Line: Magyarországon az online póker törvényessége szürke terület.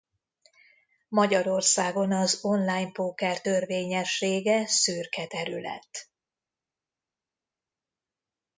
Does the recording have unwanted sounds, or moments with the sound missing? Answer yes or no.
no